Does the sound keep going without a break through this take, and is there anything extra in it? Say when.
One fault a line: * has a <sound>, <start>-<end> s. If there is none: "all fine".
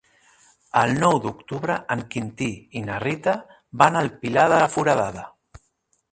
all fine